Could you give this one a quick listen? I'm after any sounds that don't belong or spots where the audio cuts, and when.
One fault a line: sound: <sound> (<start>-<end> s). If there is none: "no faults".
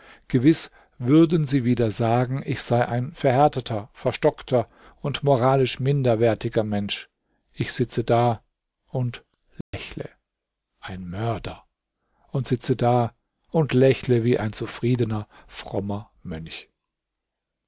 sound: dropout (9.6-9.7 s)